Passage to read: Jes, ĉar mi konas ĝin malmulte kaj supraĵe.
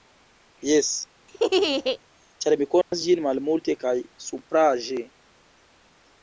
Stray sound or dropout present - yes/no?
yes